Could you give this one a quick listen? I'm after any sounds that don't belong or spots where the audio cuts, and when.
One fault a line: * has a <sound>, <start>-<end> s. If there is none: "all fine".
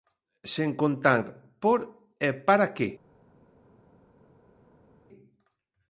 all fine